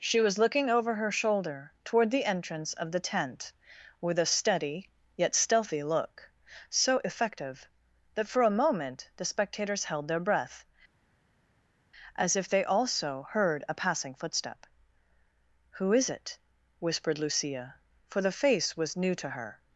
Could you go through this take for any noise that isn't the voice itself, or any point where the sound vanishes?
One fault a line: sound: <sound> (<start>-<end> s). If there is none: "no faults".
no faults